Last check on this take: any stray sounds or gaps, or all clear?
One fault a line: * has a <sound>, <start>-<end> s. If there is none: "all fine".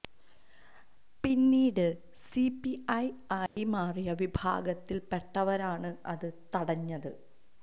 * has a dropout, 3.5-3.6 s